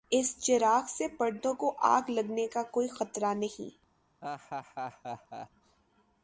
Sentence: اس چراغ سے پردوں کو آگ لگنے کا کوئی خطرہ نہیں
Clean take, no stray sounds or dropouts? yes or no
no